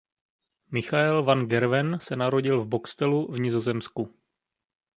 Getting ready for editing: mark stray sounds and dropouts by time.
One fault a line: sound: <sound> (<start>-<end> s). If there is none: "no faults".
no faults